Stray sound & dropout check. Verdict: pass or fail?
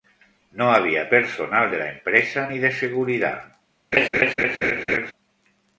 fail